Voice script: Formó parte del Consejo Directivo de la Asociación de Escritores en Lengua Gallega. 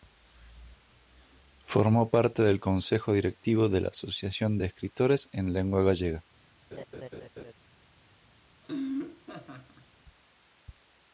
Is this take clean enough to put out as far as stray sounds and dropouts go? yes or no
no